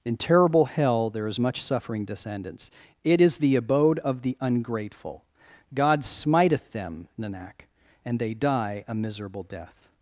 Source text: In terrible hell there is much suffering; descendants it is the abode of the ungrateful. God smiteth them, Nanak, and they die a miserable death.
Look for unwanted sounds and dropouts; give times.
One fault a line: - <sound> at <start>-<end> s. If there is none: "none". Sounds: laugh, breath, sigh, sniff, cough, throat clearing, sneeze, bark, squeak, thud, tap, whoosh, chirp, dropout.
none